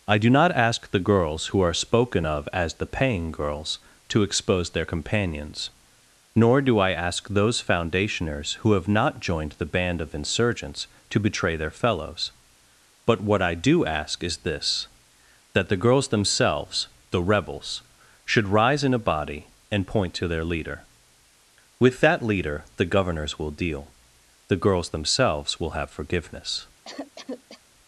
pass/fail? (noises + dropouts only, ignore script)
fail